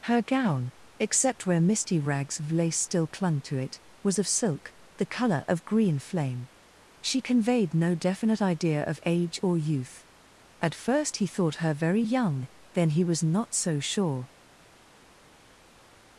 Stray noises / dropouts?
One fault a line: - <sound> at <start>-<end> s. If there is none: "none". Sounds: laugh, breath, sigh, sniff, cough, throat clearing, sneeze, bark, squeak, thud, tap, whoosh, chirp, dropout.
none